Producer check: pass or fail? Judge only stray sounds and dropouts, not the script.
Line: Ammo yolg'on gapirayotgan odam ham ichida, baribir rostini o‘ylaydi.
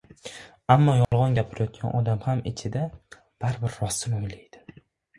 fail